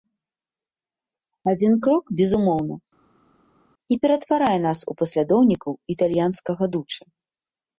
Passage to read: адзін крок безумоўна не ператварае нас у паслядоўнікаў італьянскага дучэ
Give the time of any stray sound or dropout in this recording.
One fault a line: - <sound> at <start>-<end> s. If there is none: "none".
none